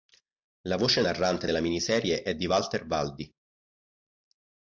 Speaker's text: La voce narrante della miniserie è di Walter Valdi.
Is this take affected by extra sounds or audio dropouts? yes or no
no